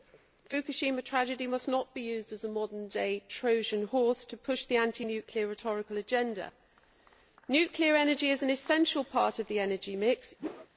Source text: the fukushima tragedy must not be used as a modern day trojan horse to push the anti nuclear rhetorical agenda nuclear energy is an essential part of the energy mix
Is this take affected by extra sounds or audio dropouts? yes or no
yes